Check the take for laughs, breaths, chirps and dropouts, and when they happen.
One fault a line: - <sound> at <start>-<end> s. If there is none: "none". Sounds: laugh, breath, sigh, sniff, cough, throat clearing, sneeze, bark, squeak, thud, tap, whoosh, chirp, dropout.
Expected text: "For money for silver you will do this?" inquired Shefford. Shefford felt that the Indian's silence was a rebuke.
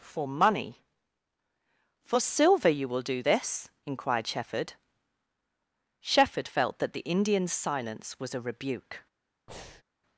- breath at 9.5-9.8 s